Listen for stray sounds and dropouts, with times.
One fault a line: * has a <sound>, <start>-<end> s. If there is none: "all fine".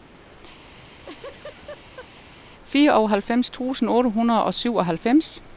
* has a laugh, 0.7-2.3 s